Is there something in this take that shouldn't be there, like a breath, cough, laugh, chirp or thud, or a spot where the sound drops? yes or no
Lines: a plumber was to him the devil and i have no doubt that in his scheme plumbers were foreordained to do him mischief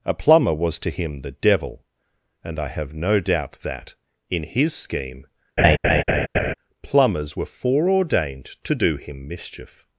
yes